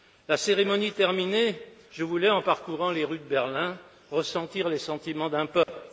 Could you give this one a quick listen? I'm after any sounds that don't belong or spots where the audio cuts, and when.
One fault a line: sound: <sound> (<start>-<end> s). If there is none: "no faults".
sound: dropout (5.6-5.7 s)